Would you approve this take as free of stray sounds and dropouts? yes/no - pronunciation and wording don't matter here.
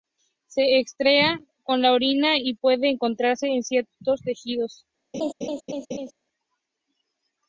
no